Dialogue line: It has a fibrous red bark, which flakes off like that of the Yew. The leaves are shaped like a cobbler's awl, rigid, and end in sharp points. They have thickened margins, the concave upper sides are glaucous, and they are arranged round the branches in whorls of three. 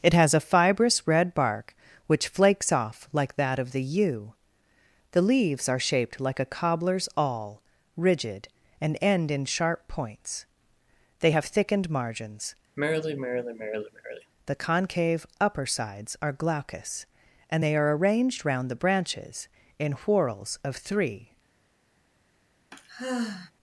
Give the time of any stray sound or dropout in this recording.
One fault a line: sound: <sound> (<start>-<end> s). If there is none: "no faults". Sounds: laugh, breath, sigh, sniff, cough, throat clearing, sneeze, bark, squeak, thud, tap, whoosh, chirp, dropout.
sound: sigh (12.8-14.3 s)
sound: sigh (22.7-23.5 s)